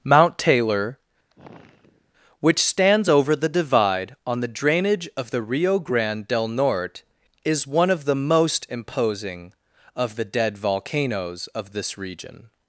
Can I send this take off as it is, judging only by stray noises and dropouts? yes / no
no